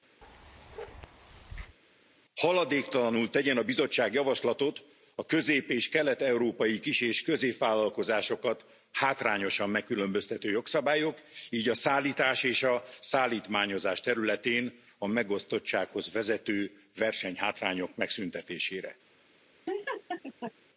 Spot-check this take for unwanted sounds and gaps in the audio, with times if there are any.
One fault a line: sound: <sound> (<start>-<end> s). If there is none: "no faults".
sound: bark (0.2-1.8 s)
sound: laugh (19.7-20.5 s)